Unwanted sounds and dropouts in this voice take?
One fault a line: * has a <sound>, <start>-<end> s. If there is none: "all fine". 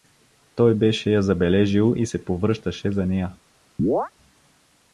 * has a chirp, 3.8-4.1 s